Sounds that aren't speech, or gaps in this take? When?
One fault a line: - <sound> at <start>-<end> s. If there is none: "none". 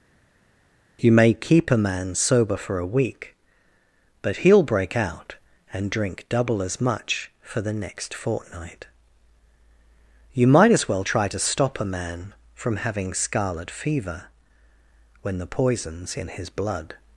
none